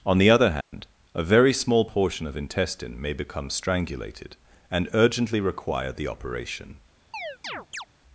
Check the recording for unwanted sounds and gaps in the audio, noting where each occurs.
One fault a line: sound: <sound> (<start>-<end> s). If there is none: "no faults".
sound: dropout (0.6-0.7 s)
sound: chirp (7.1-7.9 s)